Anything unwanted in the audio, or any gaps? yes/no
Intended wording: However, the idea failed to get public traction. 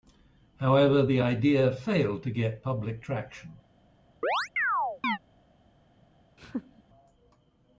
yes